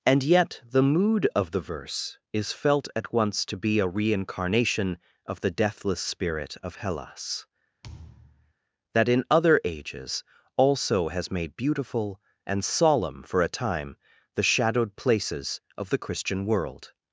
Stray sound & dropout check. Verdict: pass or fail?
fail